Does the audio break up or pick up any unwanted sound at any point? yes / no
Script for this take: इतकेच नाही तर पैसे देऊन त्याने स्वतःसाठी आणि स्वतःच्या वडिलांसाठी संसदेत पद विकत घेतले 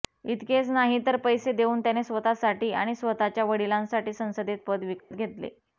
yes